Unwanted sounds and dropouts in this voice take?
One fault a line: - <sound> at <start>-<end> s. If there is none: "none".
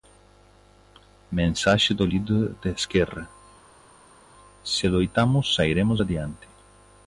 none